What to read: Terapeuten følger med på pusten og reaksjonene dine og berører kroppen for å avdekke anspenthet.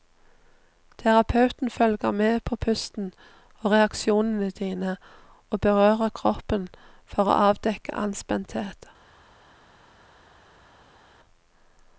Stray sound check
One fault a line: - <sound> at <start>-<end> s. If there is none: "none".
none